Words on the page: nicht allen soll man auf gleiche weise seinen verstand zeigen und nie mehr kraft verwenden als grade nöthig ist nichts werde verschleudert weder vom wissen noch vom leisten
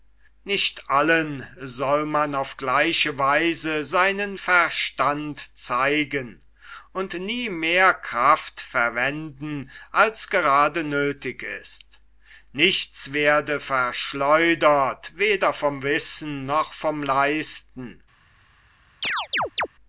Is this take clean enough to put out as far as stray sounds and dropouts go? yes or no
no